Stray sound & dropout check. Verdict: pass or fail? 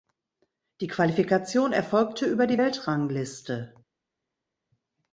pass